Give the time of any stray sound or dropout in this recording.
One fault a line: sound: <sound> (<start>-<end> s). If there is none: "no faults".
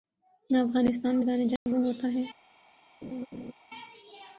sound: dropout (1.6-1.7 s)
sound: laugh (3.0-3.5 s)